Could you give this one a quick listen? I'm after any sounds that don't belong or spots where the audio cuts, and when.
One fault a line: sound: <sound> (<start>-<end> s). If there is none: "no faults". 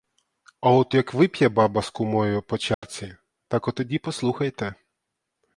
sound: dropout (2.7-2.8 s)